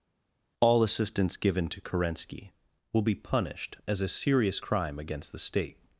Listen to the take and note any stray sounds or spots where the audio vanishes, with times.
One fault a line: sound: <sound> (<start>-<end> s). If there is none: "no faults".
no faults